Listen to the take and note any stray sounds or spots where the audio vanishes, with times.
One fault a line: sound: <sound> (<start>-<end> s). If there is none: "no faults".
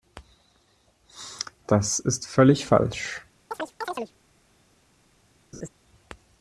sound: chirp (3.5-4.1 s)
sound: laugh (5.5-5.7 s)